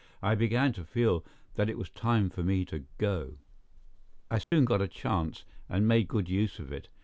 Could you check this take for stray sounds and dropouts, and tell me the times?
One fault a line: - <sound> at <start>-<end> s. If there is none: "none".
- dropout at 4.4-4.5 s